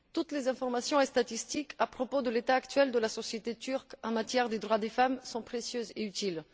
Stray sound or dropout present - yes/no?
no